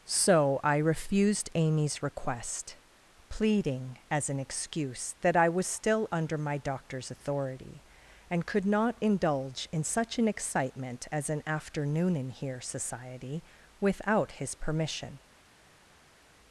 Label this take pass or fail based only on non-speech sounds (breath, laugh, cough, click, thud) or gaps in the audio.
pass